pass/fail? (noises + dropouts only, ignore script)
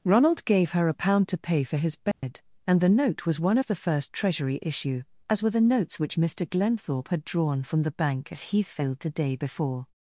fail